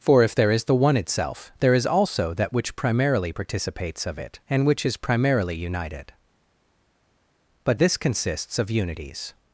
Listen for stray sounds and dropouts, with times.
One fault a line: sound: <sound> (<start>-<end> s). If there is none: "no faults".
no faults